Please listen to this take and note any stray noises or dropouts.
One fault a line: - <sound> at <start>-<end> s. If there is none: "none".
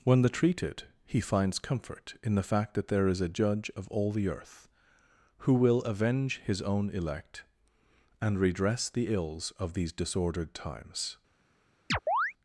- chirp at 11.9-12.3 s